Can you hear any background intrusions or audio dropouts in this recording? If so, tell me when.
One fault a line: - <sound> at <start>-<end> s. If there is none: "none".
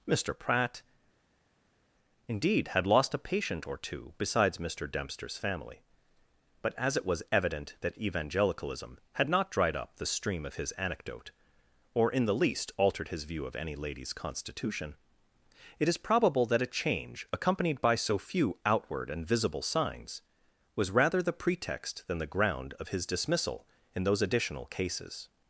none